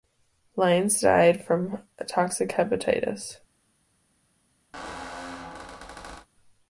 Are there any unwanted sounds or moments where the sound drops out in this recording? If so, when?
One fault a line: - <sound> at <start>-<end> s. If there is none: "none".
- squeak at 4.7-6.3 s